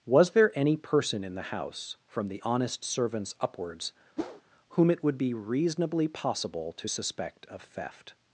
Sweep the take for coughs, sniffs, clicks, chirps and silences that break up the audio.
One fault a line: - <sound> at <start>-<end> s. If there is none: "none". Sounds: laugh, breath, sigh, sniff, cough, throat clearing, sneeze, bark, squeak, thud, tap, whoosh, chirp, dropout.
- whoosh at 4.2-4.4 s